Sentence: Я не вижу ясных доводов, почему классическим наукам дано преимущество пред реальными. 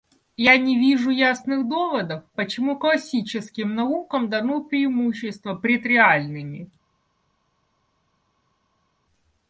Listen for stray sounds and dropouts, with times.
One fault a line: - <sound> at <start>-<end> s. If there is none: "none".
none